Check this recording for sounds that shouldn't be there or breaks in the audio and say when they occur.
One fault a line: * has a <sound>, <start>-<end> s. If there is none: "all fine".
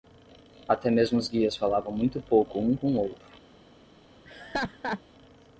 * has a laugh, 4.2-5.0 s